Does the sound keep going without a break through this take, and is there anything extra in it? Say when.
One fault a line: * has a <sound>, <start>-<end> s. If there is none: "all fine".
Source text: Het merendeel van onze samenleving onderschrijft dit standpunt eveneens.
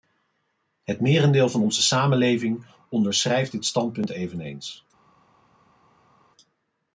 all fine